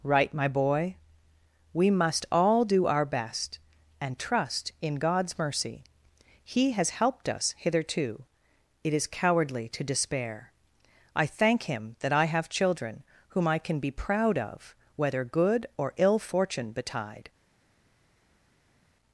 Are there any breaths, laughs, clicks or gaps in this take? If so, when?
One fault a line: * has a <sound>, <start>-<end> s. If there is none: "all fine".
all fine